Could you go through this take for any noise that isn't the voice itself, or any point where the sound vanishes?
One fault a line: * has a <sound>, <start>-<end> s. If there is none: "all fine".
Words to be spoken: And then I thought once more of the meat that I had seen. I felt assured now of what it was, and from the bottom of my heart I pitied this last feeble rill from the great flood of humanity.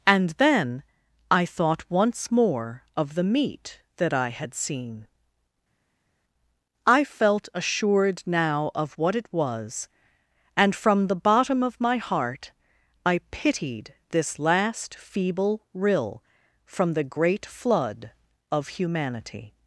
all fine